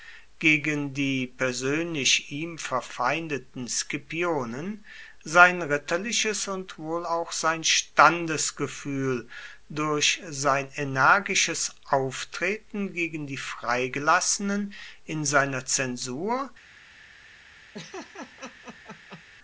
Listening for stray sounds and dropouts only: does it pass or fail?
fail